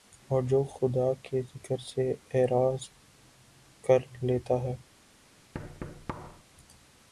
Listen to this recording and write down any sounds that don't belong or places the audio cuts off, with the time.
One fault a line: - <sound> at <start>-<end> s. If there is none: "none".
- thud at 5.5-6.4 s